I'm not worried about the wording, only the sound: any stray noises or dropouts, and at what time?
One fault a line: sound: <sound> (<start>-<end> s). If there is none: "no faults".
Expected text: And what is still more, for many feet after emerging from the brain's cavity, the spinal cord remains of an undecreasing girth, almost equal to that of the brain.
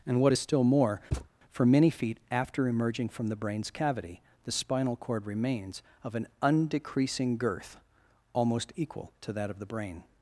sound: thud (1.1-1.3 s)